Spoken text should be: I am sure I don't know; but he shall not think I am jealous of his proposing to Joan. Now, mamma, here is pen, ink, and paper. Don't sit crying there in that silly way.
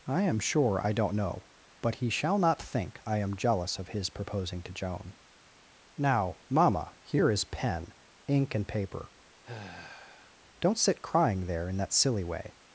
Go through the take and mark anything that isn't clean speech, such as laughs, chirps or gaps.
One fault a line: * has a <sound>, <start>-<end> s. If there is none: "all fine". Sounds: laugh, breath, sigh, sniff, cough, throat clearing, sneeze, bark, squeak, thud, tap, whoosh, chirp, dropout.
* has a sigh, 9.4-10.4 s